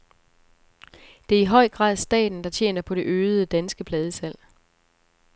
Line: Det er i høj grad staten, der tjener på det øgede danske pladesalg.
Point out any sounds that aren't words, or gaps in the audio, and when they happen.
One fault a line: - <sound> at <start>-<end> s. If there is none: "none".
none